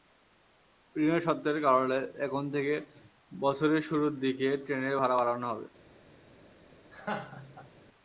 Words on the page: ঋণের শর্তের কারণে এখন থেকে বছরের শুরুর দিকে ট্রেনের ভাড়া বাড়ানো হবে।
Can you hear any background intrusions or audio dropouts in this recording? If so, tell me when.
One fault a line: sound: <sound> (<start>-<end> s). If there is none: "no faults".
sound: laugh (6.9-7.7 s)